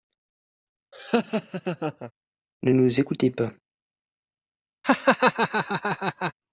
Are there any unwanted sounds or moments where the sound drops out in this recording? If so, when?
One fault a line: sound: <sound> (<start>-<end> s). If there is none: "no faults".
sound: laugh (0.9-2.1 s)
sound: laugh (4.8-6.3 s)